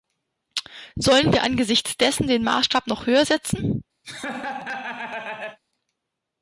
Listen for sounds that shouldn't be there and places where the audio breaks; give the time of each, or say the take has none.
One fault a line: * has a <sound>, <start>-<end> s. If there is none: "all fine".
* has a laugh, 4.0-5.6 s